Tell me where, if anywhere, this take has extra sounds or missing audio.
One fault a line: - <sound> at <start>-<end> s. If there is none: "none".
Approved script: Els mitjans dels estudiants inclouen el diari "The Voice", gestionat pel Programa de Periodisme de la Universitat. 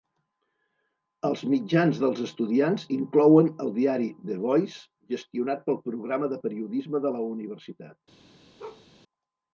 - bark at 8.6-8.9 s